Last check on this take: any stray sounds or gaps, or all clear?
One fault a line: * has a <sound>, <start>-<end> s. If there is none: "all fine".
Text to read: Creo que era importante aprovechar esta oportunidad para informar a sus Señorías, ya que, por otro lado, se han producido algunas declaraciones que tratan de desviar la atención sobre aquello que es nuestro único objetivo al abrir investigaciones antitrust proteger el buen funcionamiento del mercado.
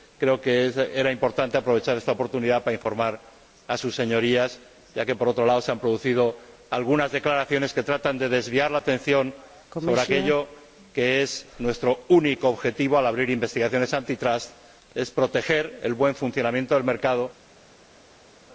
all fine